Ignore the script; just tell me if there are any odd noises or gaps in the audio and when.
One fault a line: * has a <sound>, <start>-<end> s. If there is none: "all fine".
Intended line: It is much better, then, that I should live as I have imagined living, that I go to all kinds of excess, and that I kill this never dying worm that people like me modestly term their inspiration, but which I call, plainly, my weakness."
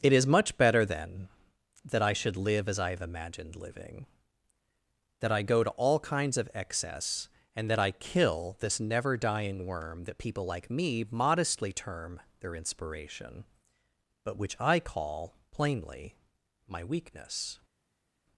all fine